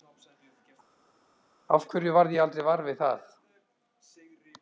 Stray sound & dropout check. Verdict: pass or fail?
pass